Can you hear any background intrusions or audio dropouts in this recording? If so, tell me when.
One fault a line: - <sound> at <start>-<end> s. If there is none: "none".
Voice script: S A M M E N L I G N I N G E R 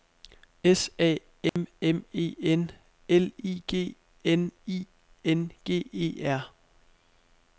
- dropout at 1.5-1.6 s